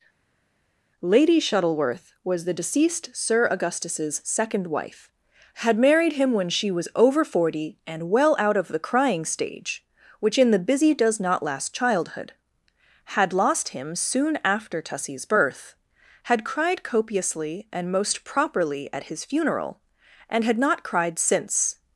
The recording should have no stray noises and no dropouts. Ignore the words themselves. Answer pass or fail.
pass